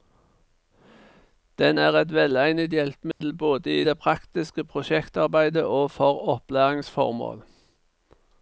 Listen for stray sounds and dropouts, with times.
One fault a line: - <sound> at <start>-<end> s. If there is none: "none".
- dropout at 3.1-3.2 s